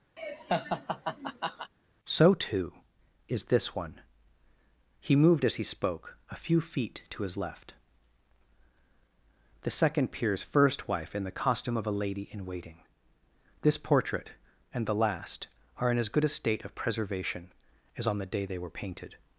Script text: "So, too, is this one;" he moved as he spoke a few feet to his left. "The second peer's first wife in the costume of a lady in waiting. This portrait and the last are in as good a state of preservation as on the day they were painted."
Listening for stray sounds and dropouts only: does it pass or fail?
fail